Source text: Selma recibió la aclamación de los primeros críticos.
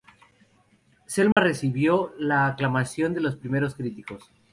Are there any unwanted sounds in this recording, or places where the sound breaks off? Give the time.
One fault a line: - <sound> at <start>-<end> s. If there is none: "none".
- dropout at 1.3-1.4 s